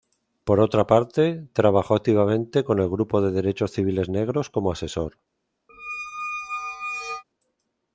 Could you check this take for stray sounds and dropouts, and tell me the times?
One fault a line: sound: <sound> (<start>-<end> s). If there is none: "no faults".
sound: squeak (5.7-7.2 s)